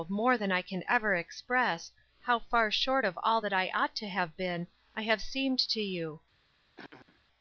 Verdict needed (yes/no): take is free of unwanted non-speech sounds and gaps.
no